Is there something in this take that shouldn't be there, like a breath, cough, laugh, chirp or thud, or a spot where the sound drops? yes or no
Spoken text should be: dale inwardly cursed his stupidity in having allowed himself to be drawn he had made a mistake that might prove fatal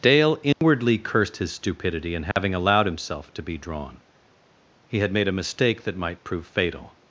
yes